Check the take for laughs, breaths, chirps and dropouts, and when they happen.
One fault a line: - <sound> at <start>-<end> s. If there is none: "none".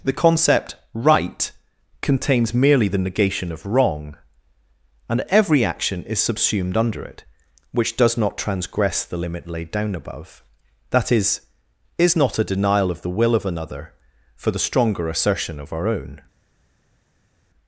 none